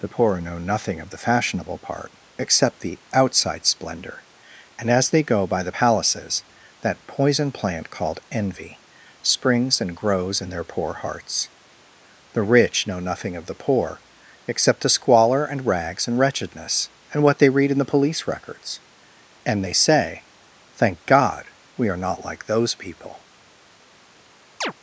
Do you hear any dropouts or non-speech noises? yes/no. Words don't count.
yes